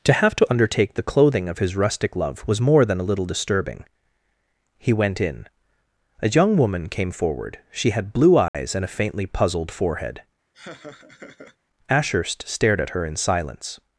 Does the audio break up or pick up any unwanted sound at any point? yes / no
yes